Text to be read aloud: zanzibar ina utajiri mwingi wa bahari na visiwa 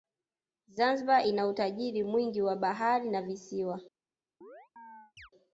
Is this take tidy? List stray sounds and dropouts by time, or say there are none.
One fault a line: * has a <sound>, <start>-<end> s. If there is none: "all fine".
* has a chirp, 4.4-5.3 s